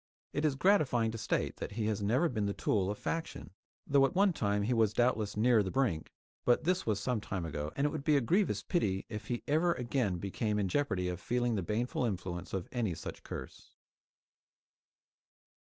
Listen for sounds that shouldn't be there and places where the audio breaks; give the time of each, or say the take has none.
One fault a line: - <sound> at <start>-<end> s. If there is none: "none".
none